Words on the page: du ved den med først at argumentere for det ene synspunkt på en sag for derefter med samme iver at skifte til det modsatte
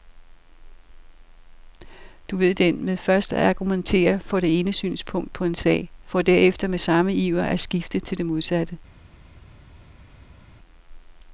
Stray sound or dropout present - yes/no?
no